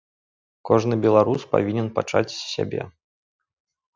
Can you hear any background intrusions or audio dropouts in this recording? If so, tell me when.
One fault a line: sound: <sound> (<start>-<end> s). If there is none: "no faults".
no faults